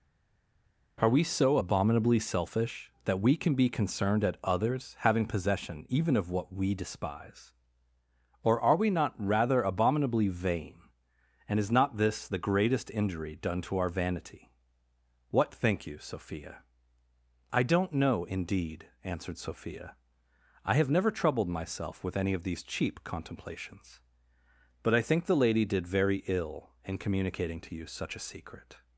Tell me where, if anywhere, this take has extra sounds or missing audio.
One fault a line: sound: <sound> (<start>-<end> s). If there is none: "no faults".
no faults